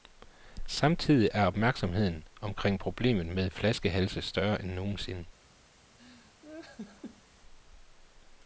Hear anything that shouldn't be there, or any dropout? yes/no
yes